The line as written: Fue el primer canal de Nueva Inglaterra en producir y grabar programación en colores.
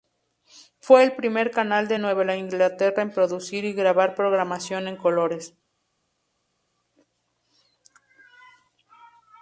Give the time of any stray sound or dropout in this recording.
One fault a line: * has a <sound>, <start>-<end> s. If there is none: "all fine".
all fine